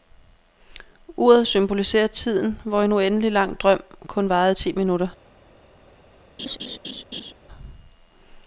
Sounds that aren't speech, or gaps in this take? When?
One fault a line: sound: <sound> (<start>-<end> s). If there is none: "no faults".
sound: laugh (6.4-7.3 s)